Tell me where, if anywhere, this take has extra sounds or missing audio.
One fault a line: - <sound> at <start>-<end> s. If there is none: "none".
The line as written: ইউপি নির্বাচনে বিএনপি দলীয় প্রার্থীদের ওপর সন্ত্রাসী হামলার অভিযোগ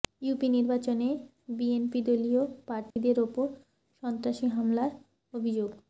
- dropout at 2.9-3.0 s